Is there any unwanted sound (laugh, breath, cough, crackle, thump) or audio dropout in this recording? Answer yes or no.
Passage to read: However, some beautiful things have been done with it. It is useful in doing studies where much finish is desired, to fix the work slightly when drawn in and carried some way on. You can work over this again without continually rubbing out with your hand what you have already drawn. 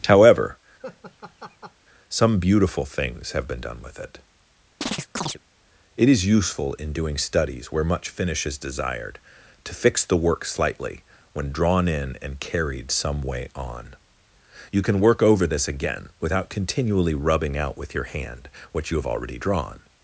yes